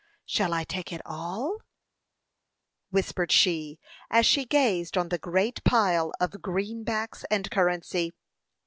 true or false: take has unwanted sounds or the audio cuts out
false